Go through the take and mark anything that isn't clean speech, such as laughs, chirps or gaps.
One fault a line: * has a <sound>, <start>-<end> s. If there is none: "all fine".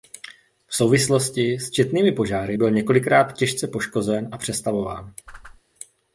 * has a whoosh, 5.3-5.6 s